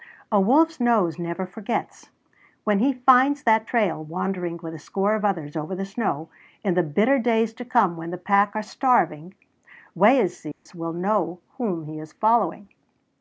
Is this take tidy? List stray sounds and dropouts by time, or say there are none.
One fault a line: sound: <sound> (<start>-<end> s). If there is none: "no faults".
sound: dropout (10.5-10.7 s)